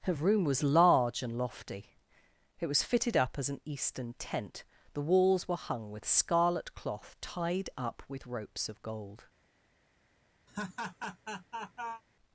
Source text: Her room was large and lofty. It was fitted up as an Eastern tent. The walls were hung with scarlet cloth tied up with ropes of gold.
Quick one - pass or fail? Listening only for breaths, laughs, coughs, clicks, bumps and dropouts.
fail